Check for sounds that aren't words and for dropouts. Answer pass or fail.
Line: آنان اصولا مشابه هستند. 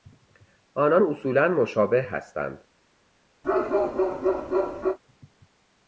fail